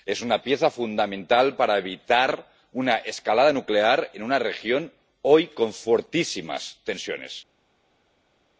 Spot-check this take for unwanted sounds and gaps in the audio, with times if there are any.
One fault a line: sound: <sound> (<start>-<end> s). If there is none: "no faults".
no faults